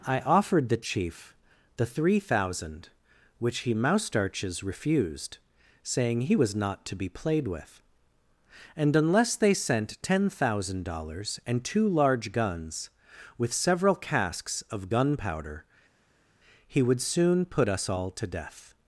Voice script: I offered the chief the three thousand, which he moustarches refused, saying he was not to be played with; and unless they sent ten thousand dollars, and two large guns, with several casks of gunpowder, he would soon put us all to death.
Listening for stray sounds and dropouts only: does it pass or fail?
pass